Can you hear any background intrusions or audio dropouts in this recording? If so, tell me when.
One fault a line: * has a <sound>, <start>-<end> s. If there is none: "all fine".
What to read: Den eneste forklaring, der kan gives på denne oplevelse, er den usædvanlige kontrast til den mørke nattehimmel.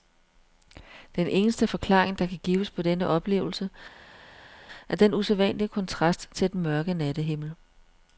all fine